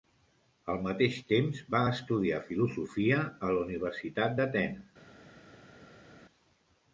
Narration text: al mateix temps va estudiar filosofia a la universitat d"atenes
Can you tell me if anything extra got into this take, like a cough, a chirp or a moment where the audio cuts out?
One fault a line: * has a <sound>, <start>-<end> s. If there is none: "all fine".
all fine